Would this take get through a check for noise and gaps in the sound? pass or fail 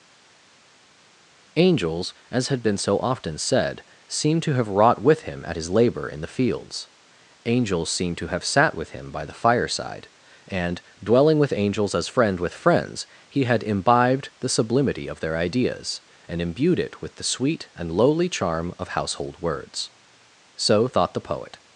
pass